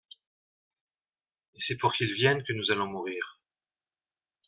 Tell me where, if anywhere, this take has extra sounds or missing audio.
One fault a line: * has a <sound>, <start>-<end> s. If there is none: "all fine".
all fine